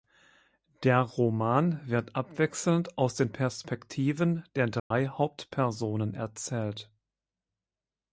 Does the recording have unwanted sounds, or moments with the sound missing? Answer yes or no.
yes